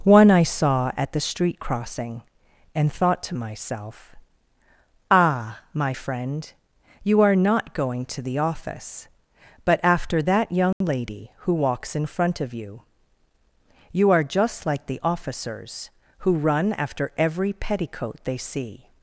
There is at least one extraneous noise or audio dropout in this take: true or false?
true